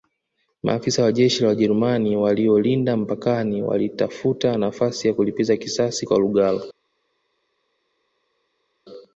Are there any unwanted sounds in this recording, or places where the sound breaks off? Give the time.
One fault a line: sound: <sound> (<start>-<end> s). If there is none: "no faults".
no faults